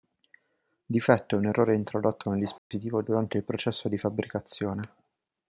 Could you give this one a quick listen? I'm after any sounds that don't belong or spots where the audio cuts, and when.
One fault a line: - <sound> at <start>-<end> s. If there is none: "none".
- dropout at 2.6-2.7 s